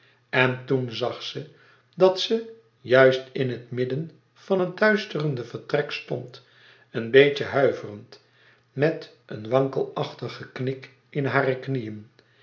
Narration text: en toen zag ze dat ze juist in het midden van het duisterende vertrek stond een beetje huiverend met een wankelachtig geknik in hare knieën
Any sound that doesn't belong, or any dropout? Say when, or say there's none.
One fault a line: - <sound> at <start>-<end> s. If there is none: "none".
none